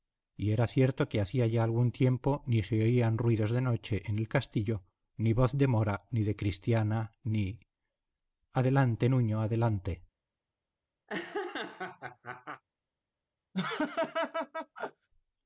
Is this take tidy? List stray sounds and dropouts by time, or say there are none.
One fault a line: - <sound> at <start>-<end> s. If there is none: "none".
- laugh at 11.1-12.6 s
- laugh at 13.5-15.1 s